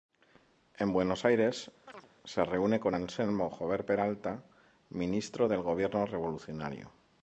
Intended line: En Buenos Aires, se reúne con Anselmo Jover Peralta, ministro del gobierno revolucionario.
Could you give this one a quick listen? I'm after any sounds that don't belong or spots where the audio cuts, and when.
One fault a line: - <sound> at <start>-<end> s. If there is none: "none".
- chirp at 1.9-2.1 s